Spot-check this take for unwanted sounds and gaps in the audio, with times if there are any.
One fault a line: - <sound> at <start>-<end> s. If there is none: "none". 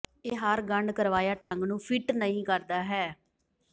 - dropout at 1.4-1.5 s